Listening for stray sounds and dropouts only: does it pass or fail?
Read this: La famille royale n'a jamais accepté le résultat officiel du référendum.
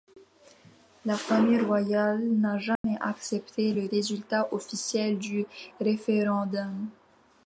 fail